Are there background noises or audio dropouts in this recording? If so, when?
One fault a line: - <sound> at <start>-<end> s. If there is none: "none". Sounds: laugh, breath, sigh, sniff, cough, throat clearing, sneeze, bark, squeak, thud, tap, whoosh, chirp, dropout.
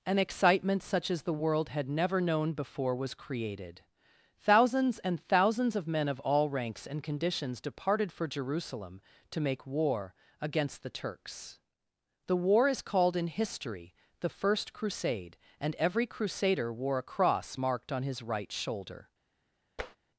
- tap at 19.8-20.0 s